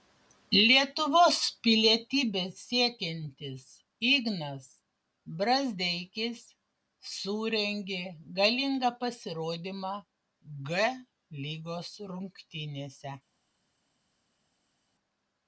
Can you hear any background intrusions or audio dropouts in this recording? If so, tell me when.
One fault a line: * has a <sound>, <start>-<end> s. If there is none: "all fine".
all fine